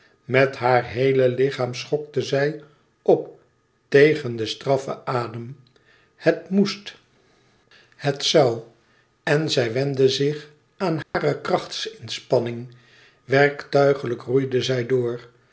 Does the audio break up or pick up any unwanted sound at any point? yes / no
yes